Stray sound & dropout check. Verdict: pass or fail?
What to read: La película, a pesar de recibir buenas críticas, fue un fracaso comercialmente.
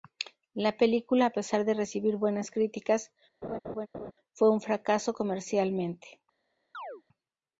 fail